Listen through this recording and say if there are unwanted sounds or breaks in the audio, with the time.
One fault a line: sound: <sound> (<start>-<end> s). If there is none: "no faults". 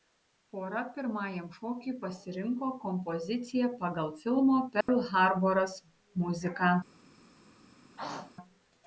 sound: dropout (4.8-4.9 s)
sound: throat clearing (7.9-8.3 s)